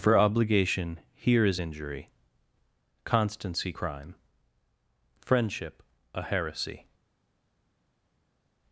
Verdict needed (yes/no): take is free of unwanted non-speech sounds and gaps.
yes